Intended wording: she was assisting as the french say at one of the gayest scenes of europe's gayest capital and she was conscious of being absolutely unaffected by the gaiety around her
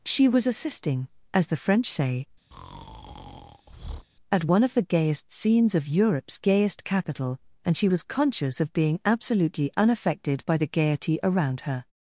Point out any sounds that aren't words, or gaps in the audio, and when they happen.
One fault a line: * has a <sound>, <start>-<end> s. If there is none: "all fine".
* has a breath, 2.5-4.1 s